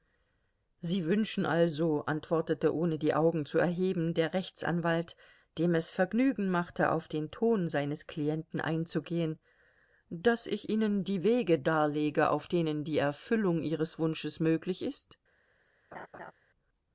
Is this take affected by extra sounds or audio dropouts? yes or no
yes